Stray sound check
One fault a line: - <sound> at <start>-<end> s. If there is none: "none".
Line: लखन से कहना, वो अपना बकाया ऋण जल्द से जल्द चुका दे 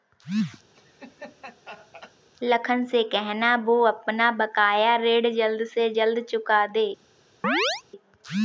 - laugh at 0.7-2.1 s
- chirp at 7.4-7.8 s